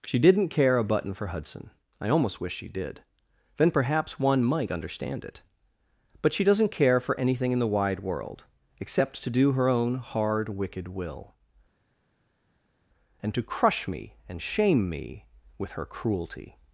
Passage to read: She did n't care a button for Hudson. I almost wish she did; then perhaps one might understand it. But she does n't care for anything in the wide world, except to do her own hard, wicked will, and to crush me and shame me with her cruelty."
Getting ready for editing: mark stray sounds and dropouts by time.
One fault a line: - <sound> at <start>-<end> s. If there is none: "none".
none